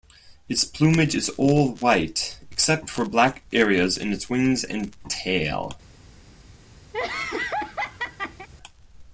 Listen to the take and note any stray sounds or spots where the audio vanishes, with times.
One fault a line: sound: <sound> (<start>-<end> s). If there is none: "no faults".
sound: laugh (6.9-8.5 s)